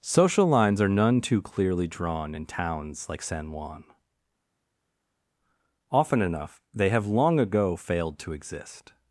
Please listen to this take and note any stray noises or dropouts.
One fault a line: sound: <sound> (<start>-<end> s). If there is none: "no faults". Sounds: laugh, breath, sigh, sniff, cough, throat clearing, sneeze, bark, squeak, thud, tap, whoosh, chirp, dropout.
no faults